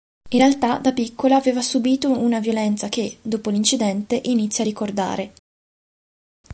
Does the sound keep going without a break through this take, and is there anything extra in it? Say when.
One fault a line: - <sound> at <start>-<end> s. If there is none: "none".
none